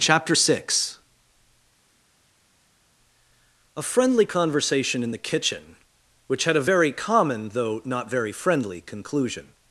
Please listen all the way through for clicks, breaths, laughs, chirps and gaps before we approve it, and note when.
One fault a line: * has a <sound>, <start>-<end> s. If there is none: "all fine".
all fine